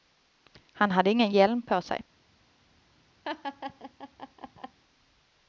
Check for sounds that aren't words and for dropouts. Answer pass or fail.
fail